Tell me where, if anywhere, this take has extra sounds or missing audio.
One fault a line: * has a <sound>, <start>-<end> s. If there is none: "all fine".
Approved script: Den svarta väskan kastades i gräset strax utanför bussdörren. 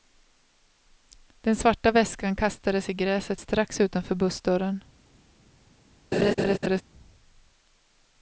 * has a laugh, 6.1-6.8 s